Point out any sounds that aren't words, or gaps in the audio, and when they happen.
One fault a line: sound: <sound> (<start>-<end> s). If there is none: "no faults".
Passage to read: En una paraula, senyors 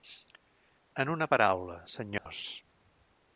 sound: dropout (2.2-2.3 s)